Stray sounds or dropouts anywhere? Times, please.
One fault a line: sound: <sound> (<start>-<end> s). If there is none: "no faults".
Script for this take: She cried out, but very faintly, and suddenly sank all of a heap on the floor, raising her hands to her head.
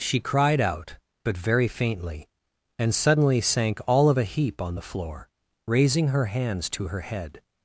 no faults